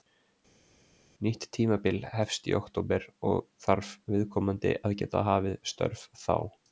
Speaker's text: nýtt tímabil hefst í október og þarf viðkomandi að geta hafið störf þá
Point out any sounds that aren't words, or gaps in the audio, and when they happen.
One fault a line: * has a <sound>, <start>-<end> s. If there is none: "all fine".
all fine